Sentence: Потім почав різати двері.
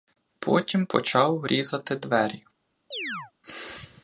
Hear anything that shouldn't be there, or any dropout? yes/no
yes